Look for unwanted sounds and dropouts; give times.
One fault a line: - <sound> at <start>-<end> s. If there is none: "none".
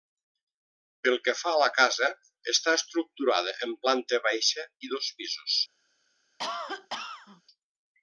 - cough at 6.4-7.4 s